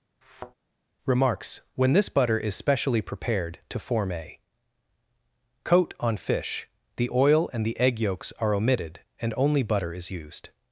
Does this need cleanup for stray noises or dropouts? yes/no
yes